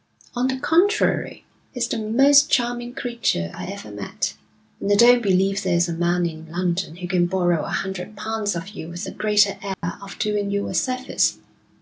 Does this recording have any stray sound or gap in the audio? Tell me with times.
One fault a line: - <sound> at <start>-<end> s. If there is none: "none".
- dropout at 9.7-9.8 s